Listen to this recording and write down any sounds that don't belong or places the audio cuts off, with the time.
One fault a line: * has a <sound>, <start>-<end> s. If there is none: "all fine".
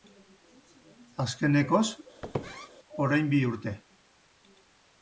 * has a squeak, 2.2-2.7 s